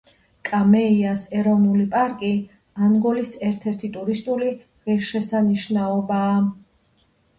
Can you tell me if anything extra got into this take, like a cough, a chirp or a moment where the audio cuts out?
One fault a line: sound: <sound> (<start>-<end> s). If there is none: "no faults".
no faults